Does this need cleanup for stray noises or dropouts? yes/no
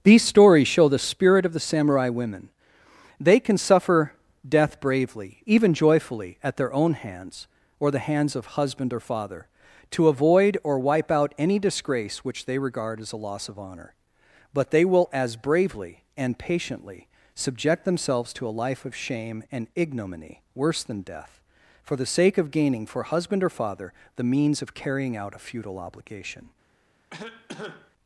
yes